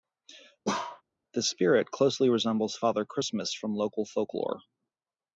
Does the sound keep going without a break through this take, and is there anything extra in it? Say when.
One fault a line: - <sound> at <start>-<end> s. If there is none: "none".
- bark at 0.6-1.0 s